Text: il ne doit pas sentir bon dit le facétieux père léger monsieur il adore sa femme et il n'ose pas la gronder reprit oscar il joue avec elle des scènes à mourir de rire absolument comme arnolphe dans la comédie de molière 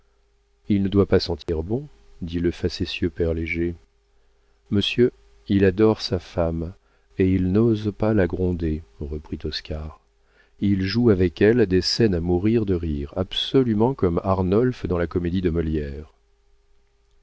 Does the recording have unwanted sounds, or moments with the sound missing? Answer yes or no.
yes